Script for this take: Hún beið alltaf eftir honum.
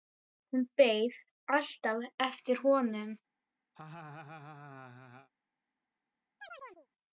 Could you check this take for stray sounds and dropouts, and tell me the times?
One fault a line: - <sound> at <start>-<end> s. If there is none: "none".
- laugh at 3.7-5.3 s
- chirp at 6.4-6.9 s